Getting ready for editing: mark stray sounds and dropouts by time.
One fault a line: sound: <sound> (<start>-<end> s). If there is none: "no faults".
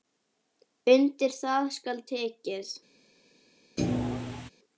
sound: thud (3.8-4.5 s)